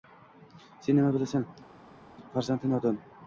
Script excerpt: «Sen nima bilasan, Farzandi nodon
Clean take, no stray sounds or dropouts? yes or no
yes